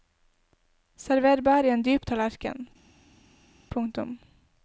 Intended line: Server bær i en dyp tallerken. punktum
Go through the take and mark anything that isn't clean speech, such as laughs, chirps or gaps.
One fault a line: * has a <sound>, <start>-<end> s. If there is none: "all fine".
all fine